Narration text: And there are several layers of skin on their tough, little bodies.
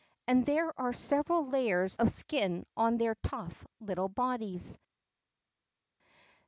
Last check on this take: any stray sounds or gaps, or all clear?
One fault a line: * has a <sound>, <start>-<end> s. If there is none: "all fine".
all fine